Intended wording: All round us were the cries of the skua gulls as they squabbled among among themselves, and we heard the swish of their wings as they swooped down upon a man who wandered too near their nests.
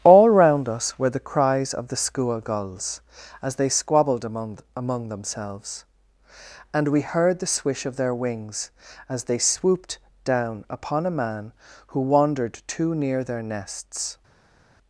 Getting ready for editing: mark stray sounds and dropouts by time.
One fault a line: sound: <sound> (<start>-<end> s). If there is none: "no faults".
no faults